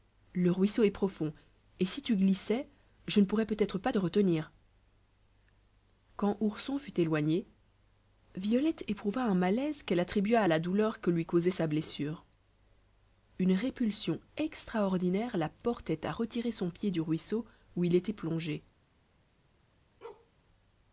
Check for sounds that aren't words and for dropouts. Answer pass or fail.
fail